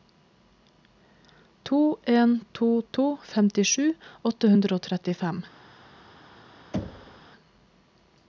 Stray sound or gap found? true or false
true